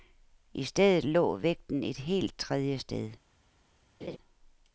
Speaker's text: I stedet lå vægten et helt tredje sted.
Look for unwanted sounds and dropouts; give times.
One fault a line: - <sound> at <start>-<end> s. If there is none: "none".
- laugh at 4.0-4.2 s